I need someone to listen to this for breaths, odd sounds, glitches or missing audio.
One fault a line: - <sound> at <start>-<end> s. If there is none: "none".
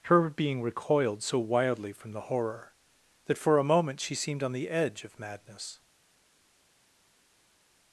none